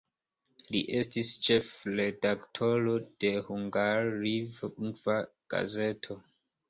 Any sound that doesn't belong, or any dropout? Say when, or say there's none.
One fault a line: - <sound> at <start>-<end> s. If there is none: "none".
none